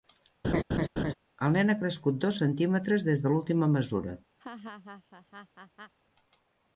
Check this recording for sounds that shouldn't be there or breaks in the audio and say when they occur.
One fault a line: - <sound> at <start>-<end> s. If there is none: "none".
- laugh at 0.4-1.1 s
- laugh at 4.4-5.9 s